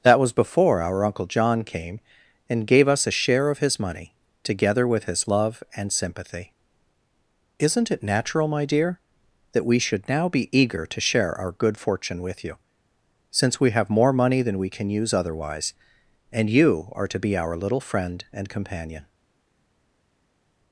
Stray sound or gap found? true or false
false